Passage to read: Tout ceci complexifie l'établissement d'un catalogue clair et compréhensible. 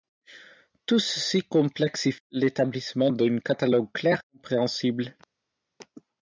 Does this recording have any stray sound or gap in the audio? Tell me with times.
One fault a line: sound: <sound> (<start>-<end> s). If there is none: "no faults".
no faults